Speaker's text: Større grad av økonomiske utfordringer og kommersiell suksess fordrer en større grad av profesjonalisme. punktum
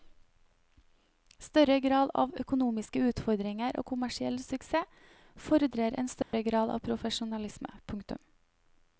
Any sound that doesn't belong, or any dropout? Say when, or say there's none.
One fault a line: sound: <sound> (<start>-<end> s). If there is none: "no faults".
sound: dropout (6.2-6.3 s)